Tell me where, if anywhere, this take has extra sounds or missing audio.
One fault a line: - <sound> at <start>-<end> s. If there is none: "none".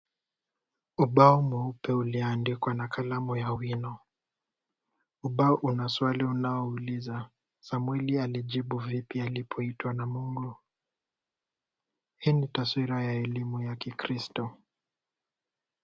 none